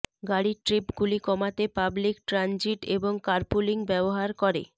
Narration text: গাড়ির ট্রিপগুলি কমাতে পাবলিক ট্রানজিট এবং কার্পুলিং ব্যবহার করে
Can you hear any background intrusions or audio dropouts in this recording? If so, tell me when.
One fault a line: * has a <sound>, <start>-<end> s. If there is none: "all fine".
all fine